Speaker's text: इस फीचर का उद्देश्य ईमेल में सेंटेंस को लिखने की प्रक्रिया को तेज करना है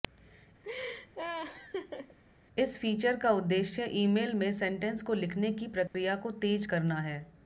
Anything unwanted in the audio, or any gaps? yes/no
yes